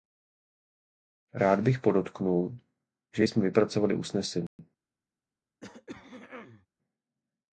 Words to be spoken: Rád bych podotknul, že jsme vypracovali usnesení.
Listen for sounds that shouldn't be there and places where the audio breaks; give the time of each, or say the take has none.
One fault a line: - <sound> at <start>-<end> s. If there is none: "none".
- dropout at 4.5-4.6 s
- throat clearing at 5.6-6.7 s